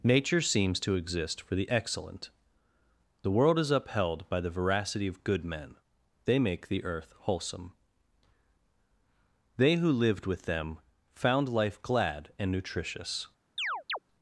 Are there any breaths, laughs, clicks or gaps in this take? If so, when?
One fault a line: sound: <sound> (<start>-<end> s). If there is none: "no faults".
sound: chirp (13.6-14.0 s)